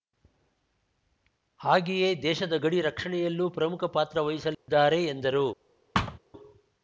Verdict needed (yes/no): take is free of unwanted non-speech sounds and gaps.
no